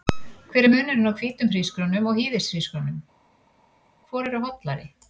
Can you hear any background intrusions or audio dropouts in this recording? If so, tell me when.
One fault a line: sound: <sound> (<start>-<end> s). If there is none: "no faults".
no faults